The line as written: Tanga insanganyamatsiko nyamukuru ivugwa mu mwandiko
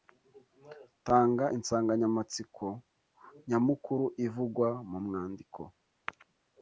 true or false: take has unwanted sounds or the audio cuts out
false